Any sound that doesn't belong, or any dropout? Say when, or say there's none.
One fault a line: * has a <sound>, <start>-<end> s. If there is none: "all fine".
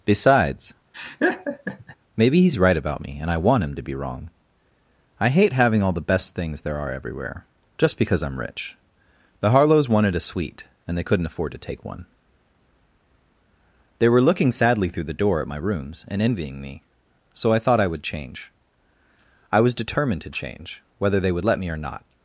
* has a laugh, 0.9-2.0 s